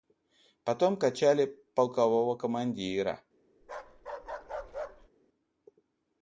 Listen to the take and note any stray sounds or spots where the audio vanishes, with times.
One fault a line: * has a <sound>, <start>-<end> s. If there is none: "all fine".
* has a bark, 3.6-5.1 s